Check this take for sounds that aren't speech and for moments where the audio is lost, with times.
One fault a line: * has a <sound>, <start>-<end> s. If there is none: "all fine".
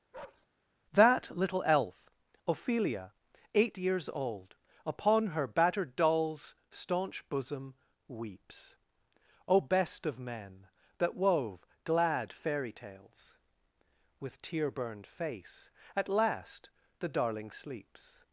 * has a bark, 0.1-0.5 s